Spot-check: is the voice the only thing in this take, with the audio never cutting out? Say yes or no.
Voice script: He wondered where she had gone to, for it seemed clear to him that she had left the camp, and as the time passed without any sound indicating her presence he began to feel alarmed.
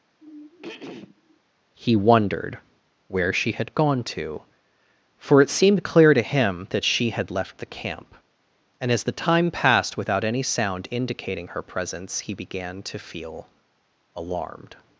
no